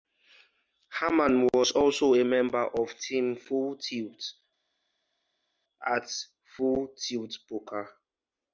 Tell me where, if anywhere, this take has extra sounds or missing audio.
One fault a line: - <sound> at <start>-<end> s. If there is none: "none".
none